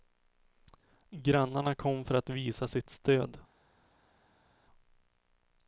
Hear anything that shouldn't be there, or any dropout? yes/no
no